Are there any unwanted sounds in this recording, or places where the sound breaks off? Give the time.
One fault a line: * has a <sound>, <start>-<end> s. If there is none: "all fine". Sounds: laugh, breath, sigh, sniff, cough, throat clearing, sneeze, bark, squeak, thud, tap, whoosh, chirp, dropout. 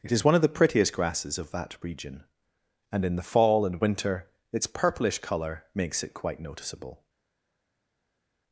all fine